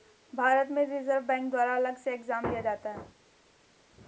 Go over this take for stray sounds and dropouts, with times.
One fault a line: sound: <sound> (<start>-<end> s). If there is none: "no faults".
no faults